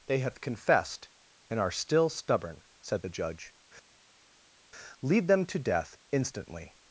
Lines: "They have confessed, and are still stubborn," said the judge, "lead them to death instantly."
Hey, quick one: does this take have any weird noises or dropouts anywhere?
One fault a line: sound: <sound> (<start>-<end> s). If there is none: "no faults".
no faults